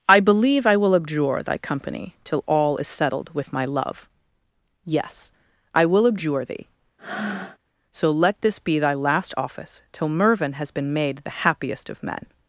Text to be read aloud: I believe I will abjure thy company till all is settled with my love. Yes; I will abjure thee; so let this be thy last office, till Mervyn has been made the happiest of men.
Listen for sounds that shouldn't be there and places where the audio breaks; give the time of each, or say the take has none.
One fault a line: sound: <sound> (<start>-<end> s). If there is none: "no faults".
sound: breath (7.0-7.6 s)